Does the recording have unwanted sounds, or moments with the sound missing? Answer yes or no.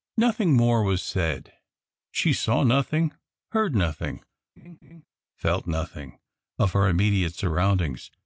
yes